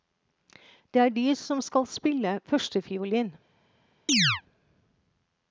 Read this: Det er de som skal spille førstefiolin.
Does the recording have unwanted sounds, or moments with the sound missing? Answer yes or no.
yes